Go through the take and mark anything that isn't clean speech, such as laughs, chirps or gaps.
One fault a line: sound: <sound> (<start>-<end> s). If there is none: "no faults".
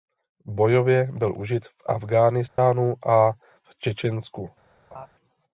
sound: dropout (2.5-2.6 s)
sound: laugh (4.9-5.1 s)